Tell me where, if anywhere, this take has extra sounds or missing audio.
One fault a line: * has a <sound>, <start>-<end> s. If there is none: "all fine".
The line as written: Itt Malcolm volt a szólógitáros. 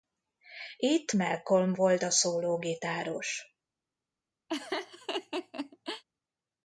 * has a laugh, 4.5-6.0 s